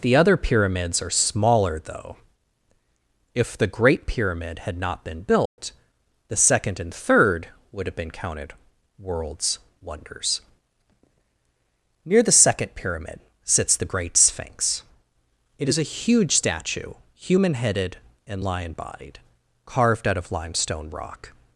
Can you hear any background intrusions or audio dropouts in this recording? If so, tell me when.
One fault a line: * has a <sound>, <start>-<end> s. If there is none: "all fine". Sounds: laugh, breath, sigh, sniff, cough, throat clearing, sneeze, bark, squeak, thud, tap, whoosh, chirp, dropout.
* has a dropout, 5.5-5.6 s